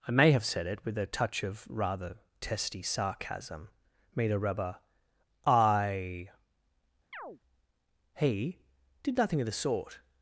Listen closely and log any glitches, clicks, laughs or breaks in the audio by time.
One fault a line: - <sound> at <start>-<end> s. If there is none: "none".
- chirp at 7.1-7.4 s